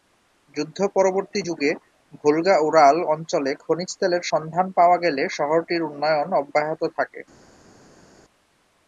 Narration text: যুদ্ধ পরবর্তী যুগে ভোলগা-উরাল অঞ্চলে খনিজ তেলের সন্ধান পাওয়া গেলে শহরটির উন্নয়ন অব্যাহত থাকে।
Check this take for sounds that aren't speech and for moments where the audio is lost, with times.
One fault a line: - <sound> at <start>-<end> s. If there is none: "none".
none